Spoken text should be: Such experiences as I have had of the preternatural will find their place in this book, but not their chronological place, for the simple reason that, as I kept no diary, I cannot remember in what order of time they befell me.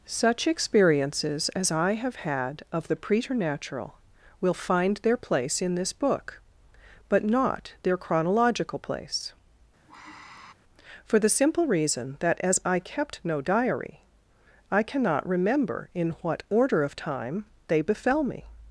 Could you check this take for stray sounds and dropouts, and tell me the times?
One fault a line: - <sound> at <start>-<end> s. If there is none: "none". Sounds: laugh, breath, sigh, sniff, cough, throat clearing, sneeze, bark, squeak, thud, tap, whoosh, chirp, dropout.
- sigh at 9.9-10.5 s